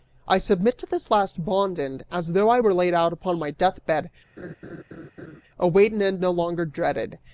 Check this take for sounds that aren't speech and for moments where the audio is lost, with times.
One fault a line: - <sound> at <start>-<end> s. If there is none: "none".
- laugh at 4.4-5.4 s